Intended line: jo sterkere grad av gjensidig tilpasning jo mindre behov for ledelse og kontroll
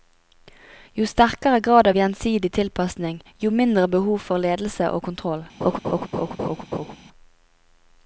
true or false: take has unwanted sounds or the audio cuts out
true